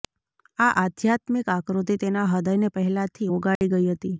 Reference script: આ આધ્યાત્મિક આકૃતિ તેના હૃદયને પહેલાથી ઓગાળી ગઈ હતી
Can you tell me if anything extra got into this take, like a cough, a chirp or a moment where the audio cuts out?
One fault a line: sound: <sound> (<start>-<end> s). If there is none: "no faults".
sound: dropout (3.6-3.6 s)